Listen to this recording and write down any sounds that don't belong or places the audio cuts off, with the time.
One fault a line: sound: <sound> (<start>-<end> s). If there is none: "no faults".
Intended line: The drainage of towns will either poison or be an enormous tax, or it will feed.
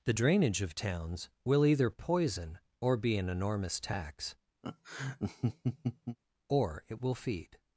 sound: laugh (4.6-6.2 s)